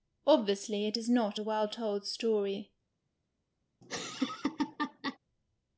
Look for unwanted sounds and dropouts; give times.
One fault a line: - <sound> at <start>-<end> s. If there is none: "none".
- laugh at 3.8-5.2 s